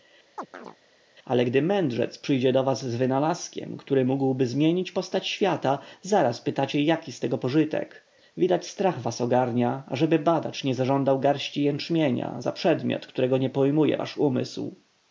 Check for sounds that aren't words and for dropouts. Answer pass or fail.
fail